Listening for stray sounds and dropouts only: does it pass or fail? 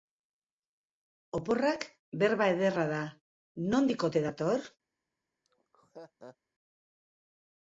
fail